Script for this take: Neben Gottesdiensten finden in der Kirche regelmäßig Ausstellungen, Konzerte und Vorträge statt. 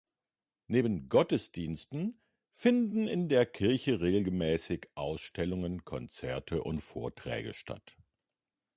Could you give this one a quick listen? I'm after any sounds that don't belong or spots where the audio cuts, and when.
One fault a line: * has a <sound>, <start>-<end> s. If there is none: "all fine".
all fine